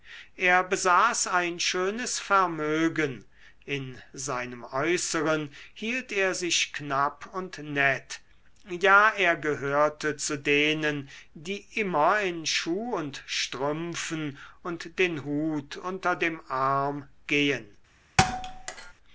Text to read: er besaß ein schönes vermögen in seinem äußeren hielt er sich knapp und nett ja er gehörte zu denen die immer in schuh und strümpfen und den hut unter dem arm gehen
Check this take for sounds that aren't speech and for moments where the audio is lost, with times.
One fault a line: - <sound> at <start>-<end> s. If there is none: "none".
- thud at 18.2-18.9 s